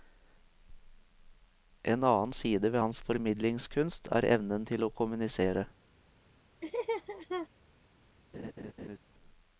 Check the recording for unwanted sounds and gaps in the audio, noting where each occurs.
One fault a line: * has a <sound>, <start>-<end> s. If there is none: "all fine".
* has a laugh, 6.6-7.5 s
* has a laugh, 8.3-9.0 s